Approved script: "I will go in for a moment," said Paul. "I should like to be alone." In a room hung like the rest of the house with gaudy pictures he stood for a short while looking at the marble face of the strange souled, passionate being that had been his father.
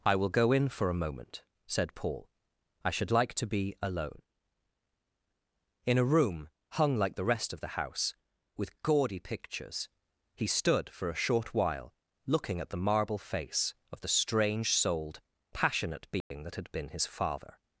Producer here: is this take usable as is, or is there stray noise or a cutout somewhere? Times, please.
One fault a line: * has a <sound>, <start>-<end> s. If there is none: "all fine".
* has a dropout, 16.2-16.3 s